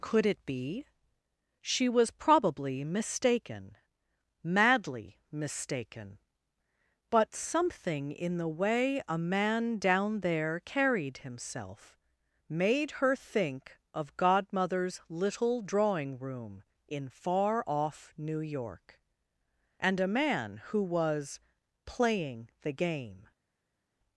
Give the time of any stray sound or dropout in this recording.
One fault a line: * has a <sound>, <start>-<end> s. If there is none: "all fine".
all fine